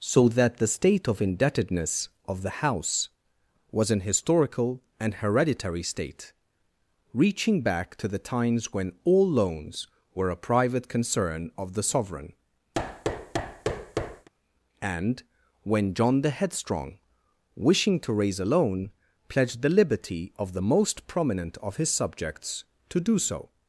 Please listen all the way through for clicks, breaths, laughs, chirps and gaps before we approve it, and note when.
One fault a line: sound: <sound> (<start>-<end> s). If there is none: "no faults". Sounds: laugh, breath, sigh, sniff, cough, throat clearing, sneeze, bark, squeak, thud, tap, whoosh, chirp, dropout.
sound: thud (12.7-14.3 s)